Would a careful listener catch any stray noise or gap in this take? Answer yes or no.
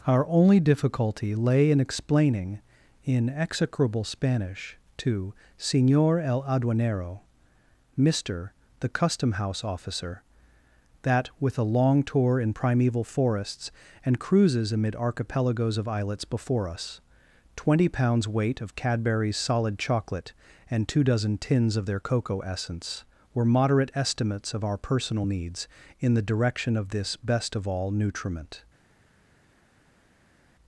no